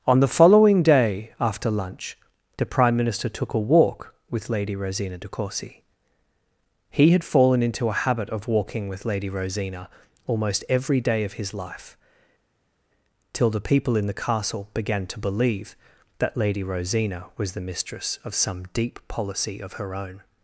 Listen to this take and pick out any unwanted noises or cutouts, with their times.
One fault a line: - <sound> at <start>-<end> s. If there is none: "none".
none